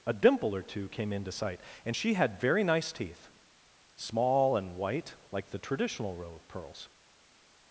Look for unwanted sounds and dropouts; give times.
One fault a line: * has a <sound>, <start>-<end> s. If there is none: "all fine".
all fine